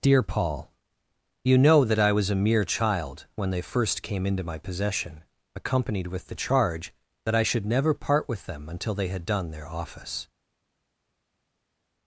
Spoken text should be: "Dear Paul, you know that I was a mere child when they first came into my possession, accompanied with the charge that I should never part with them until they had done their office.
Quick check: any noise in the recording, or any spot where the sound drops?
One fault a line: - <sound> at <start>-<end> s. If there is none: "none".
none